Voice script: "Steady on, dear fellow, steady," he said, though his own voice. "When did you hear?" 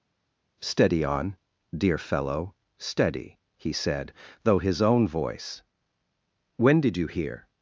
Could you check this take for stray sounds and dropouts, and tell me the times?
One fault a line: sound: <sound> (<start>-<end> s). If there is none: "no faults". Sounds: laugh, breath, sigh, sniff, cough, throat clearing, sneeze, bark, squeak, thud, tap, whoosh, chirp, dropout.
no faults